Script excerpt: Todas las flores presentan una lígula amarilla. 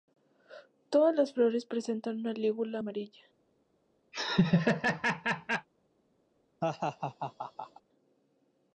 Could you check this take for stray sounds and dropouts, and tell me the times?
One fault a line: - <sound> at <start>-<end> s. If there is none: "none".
- laugh at 4.1-5.7 s
- laugh at 6.6-7.8 s